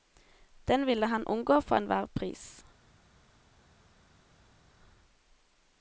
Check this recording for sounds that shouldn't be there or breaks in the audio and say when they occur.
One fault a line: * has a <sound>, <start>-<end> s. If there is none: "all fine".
all fine